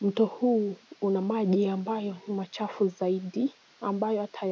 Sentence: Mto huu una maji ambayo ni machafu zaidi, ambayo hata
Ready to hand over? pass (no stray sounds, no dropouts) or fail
pass